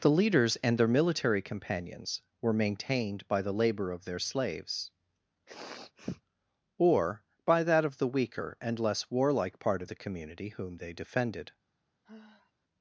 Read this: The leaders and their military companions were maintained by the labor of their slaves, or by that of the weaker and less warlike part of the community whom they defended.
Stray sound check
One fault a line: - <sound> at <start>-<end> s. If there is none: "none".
- sniff at 5.5-6.2 s
- sigh at 12.0-12.5 s